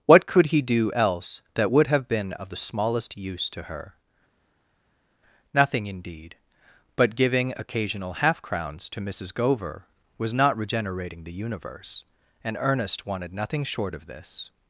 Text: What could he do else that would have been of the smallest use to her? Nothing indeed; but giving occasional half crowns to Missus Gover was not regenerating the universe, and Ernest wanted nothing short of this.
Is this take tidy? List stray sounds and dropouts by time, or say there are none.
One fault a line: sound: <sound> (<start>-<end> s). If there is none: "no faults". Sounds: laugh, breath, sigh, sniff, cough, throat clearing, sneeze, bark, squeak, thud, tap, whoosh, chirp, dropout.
no faults